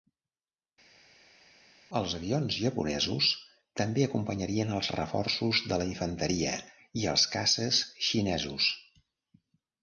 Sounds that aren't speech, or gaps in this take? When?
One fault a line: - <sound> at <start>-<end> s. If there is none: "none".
none